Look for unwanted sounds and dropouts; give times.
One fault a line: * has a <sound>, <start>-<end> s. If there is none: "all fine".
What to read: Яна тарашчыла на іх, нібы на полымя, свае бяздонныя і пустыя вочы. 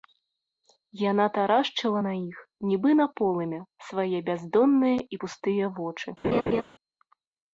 * has a laugh, 6.2-6.6 s